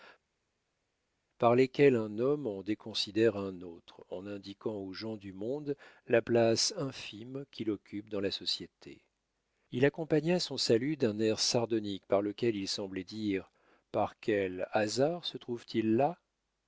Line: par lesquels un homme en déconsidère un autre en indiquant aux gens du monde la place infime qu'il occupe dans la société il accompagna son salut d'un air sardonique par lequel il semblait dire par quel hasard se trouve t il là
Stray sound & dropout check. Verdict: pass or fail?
pass